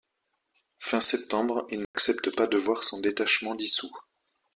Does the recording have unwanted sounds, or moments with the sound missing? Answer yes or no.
yes